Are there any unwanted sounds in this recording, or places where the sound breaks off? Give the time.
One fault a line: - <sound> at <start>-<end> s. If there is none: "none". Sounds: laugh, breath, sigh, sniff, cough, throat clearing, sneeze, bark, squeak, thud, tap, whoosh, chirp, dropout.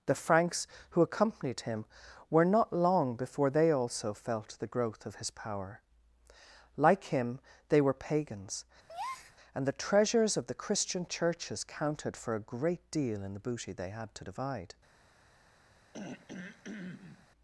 - breath at 8.9-9.4 s
- throat clearing at 15.9-17.3 s